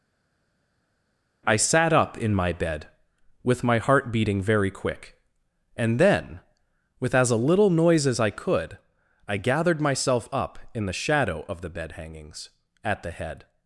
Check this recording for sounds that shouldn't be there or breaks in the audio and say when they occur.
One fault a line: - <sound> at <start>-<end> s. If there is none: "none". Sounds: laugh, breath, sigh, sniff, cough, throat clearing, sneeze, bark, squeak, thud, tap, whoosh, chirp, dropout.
none